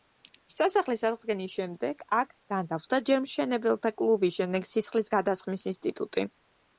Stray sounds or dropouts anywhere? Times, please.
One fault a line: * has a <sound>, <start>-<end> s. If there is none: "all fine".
all fine